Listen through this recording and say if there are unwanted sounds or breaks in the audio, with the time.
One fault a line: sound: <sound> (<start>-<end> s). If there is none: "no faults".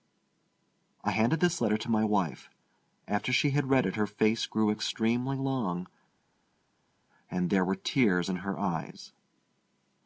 no faults